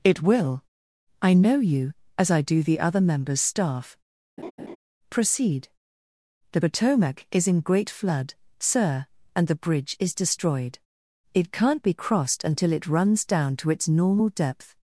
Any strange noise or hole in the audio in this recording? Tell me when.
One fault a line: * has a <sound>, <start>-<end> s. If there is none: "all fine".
* has a laugh, 4.4-4.8 s